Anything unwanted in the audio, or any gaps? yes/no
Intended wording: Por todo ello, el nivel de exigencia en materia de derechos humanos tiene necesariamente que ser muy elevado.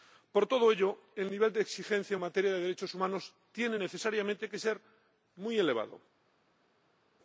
no